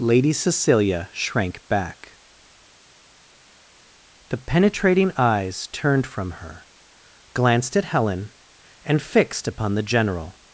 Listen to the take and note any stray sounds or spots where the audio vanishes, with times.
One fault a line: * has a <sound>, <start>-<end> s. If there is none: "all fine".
all fine